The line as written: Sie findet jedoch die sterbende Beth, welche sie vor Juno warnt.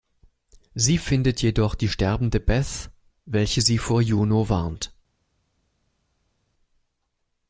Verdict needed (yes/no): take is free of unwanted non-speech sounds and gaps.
yes